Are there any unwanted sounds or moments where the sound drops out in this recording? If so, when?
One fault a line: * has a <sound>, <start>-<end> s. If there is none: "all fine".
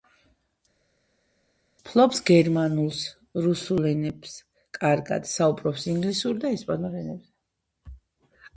all fine